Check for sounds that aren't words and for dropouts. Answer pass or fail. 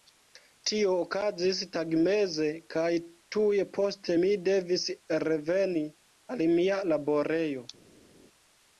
pass